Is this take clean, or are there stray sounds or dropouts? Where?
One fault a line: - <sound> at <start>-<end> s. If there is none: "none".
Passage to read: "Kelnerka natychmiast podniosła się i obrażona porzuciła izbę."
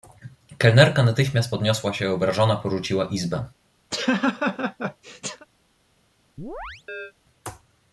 - laugh at 3.9-5.5 s
- chirp at 6.4-7.1 s